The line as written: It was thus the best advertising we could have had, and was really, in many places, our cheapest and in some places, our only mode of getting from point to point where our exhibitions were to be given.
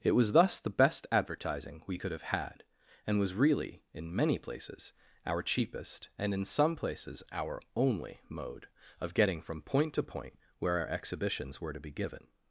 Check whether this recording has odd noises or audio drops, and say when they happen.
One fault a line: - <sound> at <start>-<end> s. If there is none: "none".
none